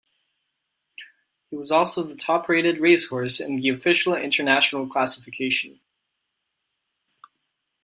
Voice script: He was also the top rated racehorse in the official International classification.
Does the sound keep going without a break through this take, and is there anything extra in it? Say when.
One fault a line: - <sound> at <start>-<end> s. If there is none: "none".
none